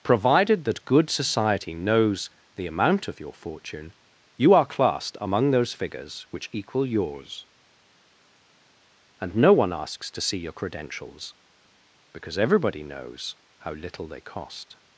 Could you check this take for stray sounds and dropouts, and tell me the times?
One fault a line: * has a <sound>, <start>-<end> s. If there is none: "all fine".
all fine